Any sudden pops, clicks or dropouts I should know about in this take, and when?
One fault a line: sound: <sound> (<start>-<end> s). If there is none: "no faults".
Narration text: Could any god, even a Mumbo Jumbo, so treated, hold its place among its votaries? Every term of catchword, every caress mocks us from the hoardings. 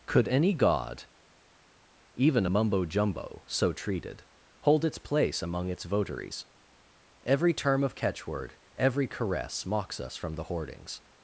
no faults